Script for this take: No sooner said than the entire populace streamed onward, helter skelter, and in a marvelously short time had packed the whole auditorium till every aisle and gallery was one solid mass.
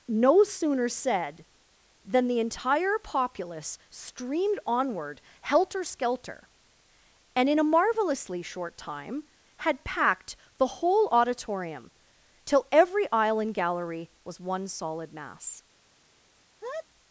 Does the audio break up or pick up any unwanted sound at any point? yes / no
yes